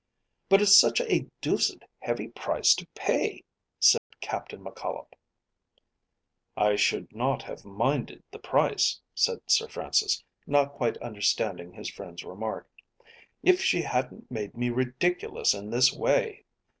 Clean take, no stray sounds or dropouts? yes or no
no